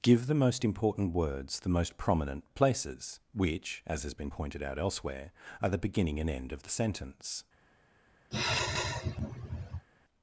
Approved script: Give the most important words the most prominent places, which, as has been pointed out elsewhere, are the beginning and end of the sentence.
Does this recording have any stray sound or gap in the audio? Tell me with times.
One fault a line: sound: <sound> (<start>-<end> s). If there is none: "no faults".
sound: sigh (8.3-9.9 s)